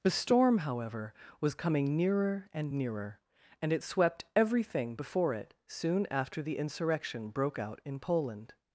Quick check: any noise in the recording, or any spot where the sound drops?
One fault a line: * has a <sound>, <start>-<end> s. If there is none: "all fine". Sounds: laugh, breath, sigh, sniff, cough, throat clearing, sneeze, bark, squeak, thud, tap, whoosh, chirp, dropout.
all fine